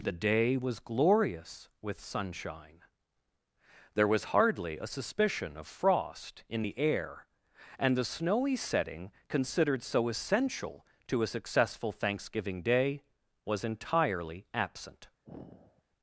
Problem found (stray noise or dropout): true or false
true